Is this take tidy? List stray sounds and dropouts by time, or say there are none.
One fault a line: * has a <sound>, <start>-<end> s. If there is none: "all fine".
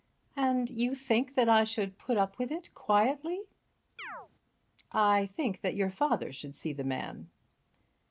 * has a chirp, 4.0-4.3 s